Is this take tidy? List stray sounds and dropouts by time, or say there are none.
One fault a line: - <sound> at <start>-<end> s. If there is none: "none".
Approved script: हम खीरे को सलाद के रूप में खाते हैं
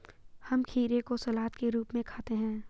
none